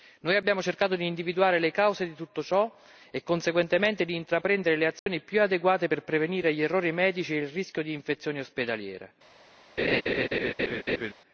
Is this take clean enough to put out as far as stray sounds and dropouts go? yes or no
no